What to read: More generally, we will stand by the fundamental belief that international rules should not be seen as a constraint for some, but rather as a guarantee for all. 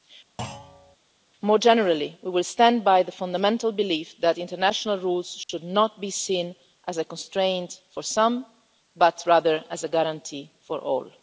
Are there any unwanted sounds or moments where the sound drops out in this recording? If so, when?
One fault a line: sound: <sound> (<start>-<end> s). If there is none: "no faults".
sound: thud (0.4-1.0 s)
sound: dropout (5.4-5.5 s)